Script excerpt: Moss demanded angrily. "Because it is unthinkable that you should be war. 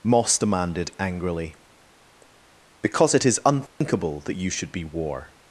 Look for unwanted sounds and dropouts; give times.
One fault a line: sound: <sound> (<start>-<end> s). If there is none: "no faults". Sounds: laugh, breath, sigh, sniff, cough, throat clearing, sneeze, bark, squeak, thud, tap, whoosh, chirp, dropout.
sound: dropout (3.7-3.8 s)